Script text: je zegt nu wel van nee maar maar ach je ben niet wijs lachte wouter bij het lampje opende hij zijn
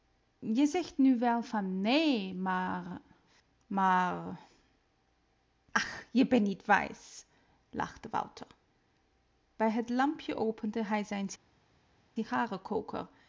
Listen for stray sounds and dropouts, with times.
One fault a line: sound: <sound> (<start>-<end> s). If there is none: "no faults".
no faults